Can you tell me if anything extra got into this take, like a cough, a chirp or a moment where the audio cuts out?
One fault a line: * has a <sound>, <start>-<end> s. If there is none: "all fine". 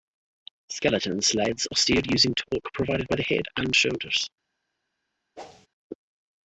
* has a whoosh, 5.4-5.7 s